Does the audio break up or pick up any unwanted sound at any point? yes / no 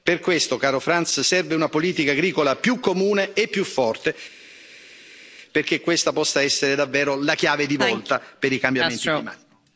no